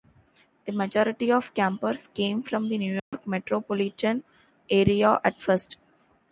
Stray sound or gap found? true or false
true